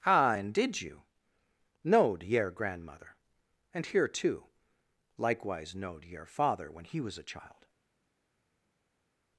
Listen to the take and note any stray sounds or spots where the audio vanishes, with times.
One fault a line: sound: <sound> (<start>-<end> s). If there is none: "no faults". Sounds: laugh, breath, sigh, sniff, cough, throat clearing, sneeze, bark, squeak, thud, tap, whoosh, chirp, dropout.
no faults